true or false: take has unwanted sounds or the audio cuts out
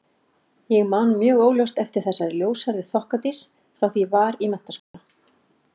true